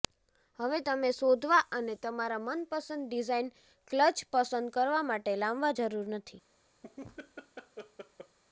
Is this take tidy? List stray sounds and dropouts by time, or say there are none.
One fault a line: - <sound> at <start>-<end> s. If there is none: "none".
- laugh at 6.8-8.4 s